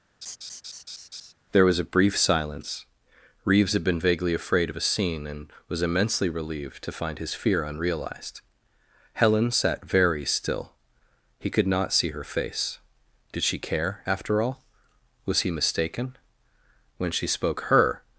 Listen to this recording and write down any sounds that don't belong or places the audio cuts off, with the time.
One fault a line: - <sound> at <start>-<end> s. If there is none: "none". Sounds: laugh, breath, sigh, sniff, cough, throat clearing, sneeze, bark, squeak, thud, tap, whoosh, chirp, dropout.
- laugh at 0.2-1.3 s